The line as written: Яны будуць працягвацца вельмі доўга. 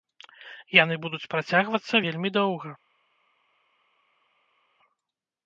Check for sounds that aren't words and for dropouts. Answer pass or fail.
pass